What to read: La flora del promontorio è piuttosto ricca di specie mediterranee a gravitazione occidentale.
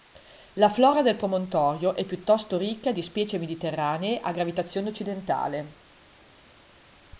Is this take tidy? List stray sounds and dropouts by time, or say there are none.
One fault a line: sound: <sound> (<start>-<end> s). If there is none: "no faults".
no faults